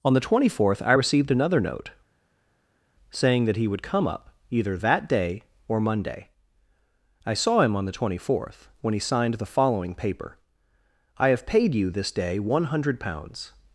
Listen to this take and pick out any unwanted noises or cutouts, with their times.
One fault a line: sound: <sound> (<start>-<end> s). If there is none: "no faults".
no faults